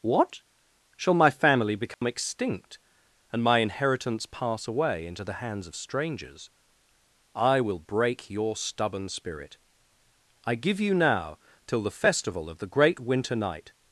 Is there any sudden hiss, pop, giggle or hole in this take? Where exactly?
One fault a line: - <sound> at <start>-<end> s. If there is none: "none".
- dropout at 1.9-2.0 s